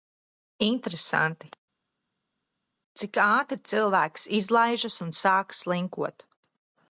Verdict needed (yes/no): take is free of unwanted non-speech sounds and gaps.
yes